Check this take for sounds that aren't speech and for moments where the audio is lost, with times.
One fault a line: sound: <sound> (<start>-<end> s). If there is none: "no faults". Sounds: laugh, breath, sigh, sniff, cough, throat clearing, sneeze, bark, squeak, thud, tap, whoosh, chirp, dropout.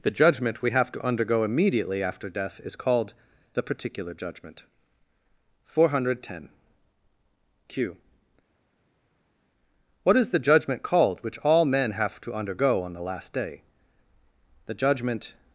no faults